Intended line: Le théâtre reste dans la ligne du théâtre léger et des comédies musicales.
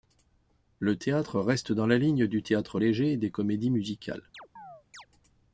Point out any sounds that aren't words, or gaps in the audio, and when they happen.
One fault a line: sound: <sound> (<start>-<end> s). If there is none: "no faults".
sound: chirp (4.3-5.1 s)